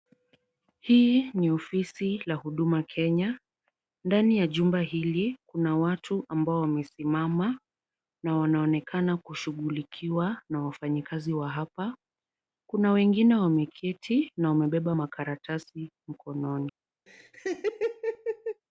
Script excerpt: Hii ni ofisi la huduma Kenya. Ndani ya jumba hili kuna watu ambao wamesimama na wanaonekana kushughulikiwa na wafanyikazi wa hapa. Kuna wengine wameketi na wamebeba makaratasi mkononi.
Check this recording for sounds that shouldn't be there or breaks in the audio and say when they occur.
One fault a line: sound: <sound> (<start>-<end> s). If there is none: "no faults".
sound: laugh (17.1-18.6 s)